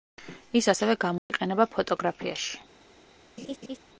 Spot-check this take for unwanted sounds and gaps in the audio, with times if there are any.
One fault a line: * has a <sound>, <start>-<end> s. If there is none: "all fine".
* has a dropout, 1.2-1.3 s
* has a laugh, 3.4-3.8 s